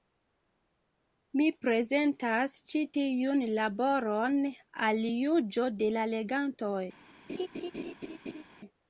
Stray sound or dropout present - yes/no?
yes